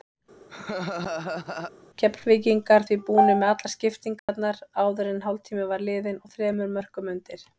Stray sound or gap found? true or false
true